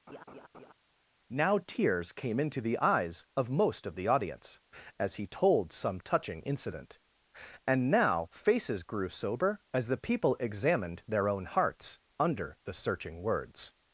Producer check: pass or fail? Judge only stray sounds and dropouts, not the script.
fail